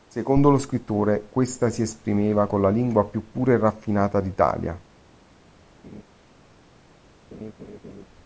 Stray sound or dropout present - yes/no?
yes